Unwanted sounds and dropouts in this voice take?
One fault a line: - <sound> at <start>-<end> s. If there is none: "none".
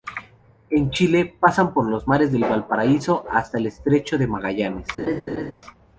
- laugh at 5.0-5.5 s